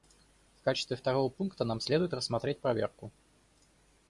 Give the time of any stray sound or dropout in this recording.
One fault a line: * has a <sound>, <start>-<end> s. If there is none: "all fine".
all fine